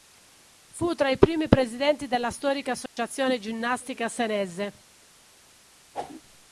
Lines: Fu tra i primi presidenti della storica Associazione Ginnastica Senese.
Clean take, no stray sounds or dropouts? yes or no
no